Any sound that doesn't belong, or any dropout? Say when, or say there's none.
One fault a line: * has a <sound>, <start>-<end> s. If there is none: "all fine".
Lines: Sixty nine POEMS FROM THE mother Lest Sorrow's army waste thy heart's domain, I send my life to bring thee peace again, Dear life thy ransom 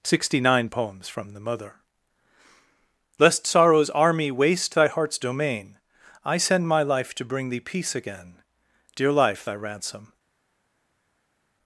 all fine